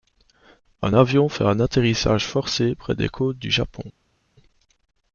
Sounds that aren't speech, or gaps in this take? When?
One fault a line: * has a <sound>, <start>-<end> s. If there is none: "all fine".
all fine